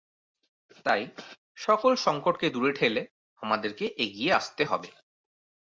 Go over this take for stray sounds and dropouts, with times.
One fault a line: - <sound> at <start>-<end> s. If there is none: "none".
none